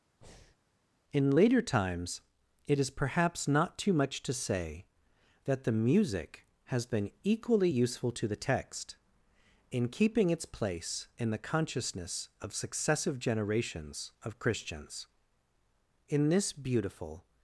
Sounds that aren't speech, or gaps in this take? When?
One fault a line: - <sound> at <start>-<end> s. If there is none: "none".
- breath at 0.2-0.6 s